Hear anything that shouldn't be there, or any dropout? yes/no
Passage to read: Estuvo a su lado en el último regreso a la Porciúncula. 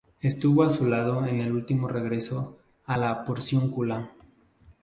no